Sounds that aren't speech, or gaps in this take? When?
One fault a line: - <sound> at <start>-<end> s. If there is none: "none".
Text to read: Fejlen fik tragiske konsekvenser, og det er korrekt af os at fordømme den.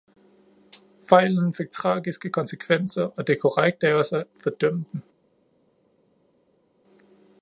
none